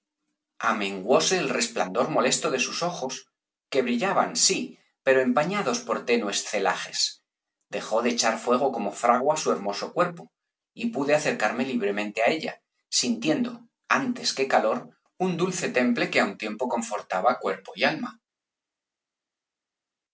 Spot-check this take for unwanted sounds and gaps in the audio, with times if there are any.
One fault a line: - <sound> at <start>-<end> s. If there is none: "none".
none